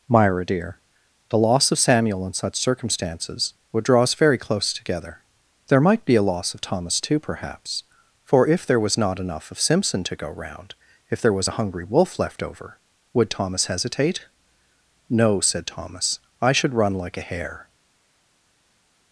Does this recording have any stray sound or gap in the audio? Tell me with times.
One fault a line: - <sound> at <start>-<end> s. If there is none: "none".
none